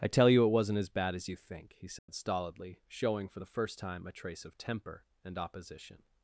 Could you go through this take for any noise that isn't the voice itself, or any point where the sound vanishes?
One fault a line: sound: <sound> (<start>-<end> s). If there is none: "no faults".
sound: dropout (2.0-2.1 s)